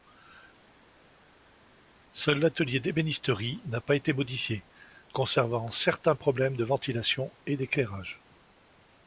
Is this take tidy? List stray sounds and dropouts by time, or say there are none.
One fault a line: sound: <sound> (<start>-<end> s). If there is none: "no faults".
no faults